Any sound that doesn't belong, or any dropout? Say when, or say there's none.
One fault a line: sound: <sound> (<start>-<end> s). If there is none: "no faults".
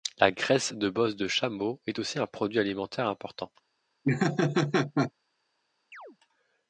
sound: laugh (4.0-5.1 s)
sound: chirp (5.9-6.2 s)